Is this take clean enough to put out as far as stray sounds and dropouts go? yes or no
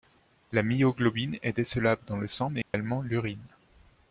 no